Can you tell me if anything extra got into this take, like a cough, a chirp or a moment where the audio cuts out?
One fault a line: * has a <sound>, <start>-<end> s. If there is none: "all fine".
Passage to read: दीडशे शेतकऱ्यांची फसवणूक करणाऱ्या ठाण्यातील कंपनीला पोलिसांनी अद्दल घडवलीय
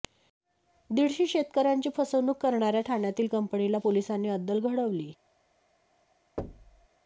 * has a thud, 6.4-6.9 s